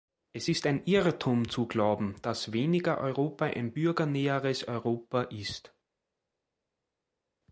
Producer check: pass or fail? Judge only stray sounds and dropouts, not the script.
pass